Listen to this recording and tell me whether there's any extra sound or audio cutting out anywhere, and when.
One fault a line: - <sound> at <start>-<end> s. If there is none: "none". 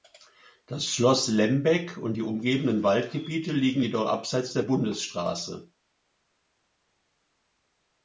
none